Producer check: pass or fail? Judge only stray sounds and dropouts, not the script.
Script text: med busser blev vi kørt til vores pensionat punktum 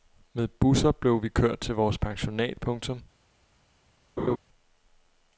fail